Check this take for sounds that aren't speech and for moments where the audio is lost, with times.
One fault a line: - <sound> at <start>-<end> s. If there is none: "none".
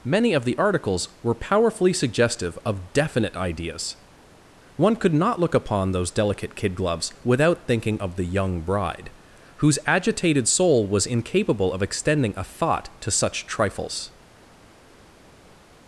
none